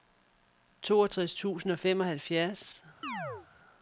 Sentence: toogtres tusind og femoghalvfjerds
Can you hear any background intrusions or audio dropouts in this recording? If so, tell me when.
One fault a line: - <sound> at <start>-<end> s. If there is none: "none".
- chirp at 3.0-3.5 s